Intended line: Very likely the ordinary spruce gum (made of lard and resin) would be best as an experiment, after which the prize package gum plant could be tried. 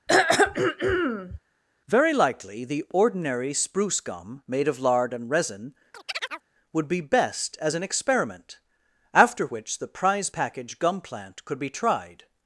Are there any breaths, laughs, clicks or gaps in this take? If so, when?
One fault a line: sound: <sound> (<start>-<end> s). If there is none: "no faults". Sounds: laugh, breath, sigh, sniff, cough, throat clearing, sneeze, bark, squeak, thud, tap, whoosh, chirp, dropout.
sound: throat clearing (0.1-1.4 s)
sound: chirp (5.9-6.4 s)